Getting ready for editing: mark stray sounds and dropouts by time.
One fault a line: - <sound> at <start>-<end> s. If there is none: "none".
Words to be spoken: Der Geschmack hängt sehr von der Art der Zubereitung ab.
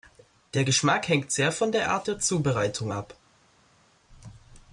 none